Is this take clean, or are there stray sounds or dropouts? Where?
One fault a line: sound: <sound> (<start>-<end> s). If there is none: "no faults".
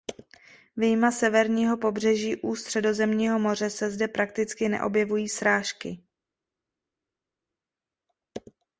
no faults